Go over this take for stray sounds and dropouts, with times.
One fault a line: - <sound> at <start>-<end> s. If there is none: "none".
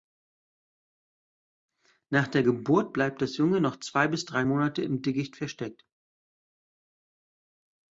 none